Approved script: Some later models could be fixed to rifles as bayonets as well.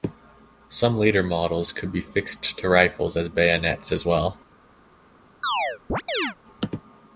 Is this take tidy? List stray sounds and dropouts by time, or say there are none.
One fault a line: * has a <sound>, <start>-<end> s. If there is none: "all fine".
* has a chirp, 5.4-6.4 s